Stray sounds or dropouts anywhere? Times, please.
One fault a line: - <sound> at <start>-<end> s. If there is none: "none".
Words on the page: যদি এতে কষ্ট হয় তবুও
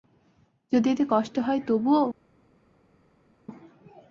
none